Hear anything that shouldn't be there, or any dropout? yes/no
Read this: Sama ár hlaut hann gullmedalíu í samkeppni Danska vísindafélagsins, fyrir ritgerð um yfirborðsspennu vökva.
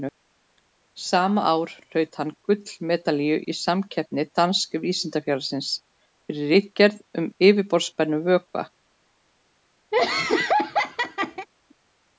yes